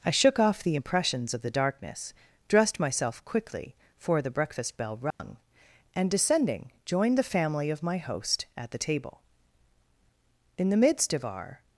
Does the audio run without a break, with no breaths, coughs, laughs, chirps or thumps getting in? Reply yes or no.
no